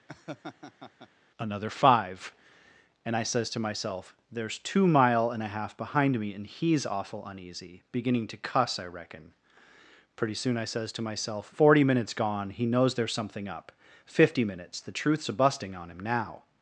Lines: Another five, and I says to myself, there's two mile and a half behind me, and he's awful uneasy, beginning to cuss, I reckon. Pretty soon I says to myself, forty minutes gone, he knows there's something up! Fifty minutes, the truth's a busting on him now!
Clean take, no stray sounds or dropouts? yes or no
no